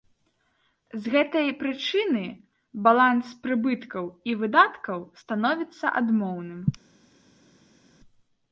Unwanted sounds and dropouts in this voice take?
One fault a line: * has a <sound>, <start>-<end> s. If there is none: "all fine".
all fine